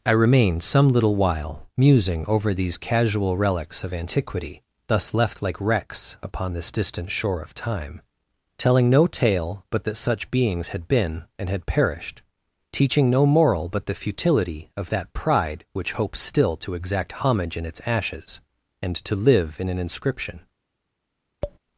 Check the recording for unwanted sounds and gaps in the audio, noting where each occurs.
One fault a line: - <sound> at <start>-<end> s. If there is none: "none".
- tap at 21.4-21.6 s